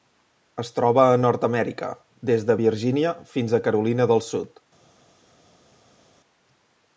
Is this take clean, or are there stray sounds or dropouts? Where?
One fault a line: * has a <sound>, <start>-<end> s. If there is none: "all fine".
all fine